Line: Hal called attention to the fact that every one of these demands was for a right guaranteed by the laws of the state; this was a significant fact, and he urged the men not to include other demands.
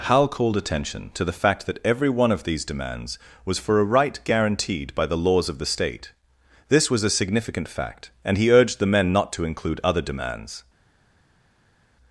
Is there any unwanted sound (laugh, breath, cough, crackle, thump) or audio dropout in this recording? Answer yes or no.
no